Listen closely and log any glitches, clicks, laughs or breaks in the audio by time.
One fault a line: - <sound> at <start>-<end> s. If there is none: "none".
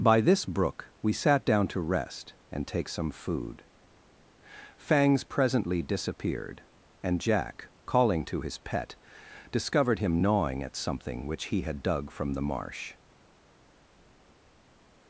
none